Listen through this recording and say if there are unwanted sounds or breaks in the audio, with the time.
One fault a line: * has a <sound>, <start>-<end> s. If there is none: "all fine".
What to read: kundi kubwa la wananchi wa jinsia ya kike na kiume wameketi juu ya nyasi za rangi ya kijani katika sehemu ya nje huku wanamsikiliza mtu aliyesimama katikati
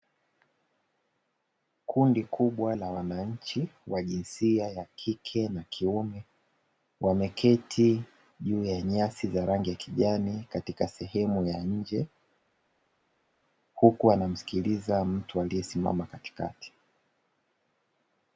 all fine